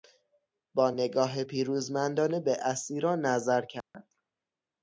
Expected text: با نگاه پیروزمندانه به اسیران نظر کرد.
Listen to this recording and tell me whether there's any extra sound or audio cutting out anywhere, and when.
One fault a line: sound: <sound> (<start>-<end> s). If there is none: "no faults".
sound: dropout (3.8-3.9 s)